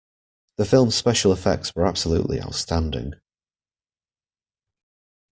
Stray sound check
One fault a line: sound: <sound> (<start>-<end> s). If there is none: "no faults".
no faults